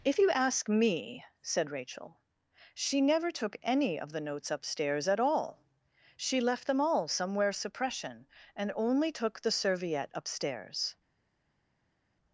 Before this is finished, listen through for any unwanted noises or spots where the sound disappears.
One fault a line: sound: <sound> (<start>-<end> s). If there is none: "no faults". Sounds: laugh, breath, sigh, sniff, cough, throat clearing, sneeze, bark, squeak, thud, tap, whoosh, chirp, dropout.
no faults